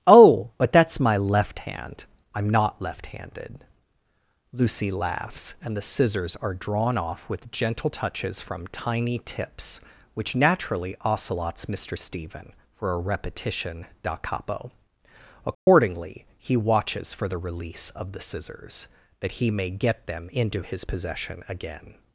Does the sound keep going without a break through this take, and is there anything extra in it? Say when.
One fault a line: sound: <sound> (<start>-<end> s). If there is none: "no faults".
sound: dropout (15.5-15.7 s)